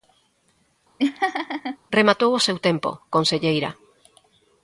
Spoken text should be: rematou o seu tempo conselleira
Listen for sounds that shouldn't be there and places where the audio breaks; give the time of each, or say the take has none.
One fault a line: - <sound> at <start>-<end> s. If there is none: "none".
- laugh at 1.0-1.8 s